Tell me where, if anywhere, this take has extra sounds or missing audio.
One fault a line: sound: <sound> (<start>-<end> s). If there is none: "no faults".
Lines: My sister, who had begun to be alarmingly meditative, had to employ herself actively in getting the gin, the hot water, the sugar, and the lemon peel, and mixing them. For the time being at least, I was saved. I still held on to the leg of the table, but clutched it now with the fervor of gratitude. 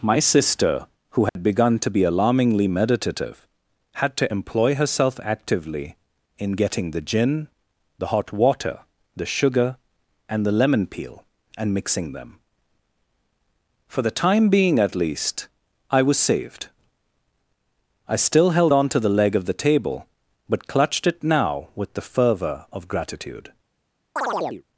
sound: dropout (1.3-1.4 s)
sound: chirp (24.2-24.6 s)